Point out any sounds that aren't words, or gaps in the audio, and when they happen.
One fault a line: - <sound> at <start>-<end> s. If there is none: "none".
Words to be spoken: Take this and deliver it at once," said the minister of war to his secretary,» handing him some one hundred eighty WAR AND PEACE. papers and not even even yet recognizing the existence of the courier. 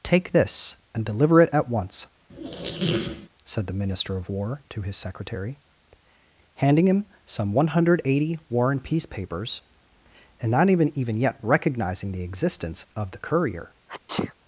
- squeak at 2.3-3.3 s
- sneeze at 13.9-14.3 s